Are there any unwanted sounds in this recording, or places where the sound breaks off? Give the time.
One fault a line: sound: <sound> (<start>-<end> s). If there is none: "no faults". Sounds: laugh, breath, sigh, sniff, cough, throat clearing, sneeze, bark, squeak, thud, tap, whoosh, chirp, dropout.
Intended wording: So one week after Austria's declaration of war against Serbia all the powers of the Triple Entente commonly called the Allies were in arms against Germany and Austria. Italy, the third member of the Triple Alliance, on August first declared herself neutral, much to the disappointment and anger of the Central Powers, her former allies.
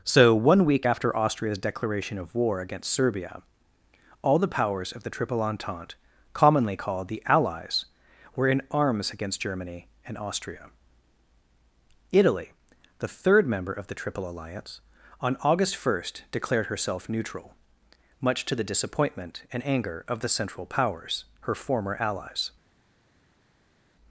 no faults